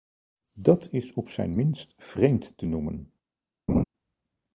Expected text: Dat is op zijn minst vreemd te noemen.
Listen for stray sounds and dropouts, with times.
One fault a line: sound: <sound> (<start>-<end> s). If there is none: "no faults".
sound: laugh (3.7-3.8 s)